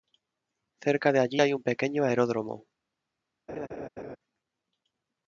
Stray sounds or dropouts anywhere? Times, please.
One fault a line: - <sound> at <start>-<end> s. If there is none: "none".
- laugh at 3.5-4.2 s